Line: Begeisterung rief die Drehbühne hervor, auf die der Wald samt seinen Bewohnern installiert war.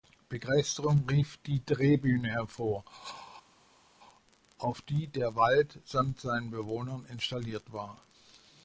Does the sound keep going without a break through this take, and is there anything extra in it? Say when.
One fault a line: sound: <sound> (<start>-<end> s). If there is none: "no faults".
no faults